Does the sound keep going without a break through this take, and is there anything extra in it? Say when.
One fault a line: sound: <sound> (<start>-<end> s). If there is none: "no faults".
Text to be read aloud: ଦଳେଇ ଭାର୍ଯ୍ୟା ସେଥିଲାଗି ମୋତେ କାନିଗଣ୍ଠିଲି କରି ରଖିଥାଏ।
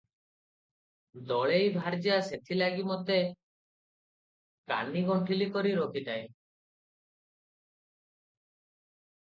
no faults